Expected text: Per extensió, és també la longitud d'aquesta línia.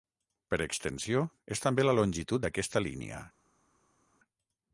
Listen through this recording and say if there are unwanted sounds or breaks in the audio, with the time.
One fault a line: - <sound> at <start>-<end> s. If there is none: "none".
none